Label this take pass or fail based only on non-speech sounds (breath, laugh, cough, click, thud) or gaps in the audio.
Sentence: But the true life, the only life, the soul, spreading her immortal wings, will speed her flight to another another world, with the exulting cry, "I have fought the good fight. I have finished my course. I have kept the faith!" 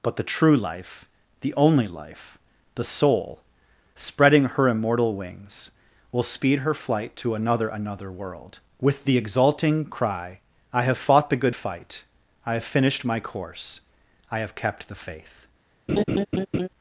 fail